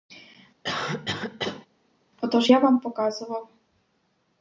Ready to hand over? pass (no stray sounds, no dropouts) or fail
fail